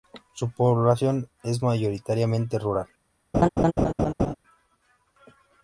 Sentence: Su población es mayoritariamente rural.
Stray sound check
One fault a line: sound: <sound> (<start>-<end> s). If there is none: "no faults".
sound: laugh (3.3-4.3 s)